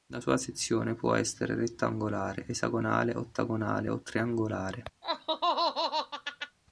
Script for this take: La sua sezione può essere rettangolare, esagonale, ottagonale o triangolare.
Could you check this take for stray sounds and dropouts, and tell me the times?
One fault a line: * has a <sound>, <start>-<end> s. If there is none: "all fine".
* has a laugh, 5.0-6.6 s